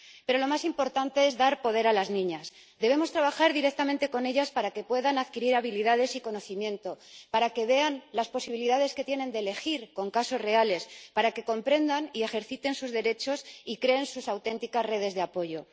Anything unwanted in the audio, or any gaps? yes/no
no